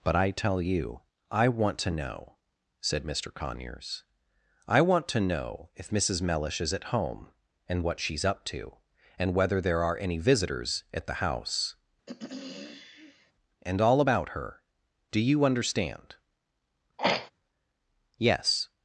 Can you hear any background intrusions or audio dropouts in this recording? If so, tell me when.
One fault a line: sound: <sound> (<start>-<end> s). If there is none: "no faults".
sound: throat clearing (12.1-13.3 s)
sound: throat clearing (17.0-17.3 s)